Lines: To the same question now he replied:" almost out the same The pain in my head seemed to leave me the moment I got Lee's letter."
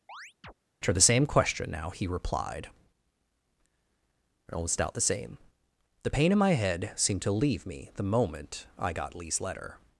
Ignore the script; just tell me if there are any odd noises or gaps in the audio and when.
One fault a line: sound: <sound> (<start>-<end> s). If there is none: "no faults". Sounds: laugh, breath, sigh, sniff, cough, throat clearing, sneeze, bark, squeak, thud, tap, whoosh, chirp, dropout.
sound: chirp (0.1-0.5 s)